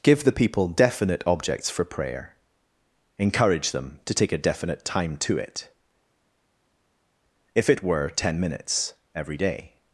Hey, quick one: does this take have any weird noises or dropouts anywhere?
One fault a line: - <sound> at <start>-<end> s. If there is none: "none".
none